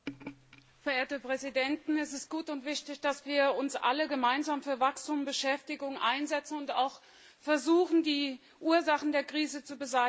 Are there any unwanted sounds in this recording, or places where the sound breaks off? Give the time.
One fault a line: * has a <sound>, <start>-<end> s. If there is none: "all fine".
all fine